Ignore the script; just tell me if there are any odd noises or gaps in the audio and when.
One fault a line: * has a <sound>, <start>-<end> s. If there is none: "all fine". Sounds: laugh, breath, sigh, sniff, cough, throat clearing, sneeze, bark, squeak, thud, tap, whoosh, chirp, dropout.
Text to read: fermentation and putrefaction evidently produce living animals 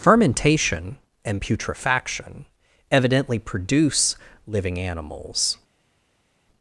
all fine